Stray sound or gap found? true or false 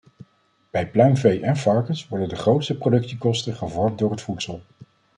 false